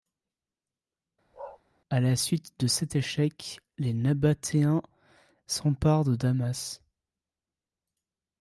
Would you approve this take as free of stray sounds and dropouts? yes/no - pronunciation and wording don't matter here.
no